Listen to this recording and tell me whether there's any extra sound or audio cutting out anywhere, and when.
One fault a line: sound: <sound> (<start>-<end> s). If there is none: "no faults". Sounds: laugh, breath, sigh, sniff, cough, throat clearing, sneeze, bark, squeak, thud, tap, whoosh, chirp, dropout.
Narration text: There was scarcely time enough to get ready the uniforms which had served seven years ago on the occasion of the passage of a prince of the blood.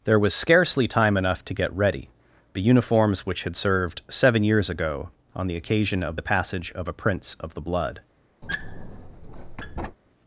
sound: squeak (8.4-10.0 s)